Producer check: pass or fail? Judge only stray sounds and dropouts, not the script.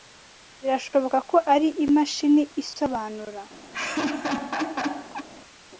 fail